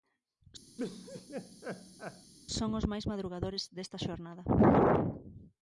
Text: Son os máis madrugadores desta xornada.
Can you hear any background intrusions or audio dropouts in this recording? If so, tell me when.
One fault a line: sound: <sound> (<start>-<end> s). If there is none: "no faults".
sound: laugh (0.8-2.3 s)